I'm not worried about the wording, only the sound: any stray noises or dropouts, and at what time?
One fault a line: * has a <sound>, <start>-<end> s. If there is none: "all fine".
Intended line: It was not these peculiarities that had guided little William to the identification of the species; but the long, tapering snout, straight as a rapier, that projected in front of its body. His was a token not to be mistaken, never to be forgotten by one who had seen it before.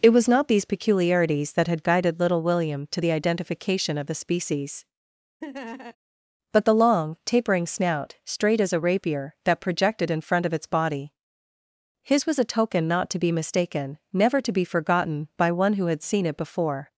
* has a laugh, 5.4-6.0 s